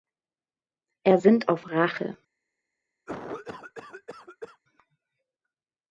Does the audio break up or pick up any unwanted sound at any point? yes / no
yes